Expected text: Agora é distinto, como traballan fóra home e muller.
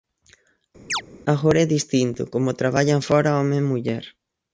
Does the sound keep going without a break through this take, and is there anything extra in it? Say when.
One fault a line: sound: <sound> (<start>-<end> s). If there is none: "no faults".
sound: chirp (0.9-1.0 s)